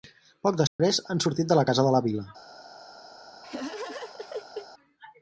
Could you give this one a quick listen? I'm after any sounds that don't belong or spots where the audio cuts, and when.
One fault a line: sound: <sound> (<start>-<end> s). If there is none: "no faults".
sound: dropout (0.7-0.8 s)
sound: laugh (3.4-4.7 s)